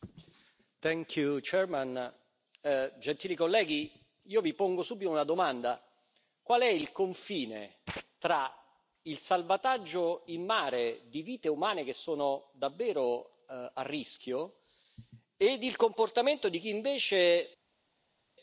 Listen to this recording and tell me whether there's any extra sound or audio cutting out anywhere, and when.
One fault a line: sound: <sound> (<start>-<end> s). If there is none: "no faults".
no faults